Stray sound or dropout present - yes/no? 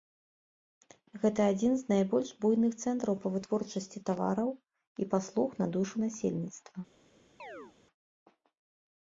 yes